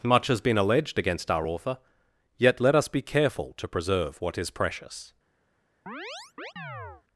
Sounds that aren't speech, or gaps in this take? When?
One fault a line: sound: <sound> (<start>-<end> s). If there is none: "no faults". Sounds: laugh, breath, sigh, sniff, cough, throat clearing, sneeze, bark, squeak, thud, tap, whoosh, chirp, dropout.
sound: chirp (5.9-7.0 s)